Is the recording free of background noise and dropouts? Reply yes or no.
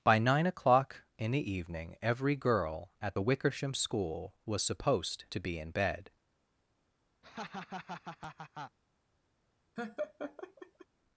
no